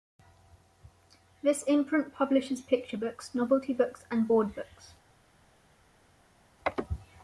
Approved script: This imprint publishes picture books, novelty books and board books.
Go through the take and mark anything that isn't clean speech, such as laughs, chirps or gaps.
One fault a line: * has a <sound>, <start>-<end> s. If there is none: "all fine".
all fine